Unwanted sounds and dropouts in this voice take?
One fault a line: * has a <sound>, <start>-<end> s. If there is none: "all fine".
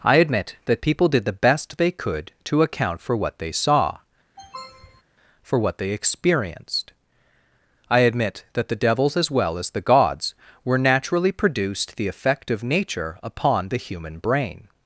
* has a sniff, 4.4-5.0 s